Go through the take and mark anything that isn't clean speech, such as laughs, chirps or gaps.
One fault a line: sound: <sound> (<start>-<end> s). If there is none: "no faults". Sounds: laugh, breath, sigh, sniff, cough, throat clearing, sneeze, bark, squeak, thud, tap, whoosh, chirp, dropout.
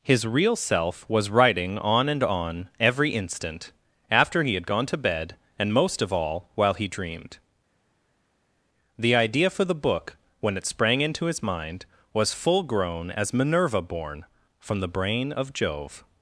no faults